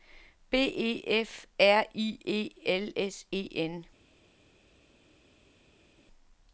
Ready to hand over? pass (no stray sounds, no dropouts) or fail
pass